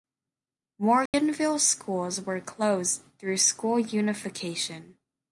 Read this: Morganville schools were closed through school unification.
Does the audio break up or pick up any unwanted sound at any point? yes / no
yes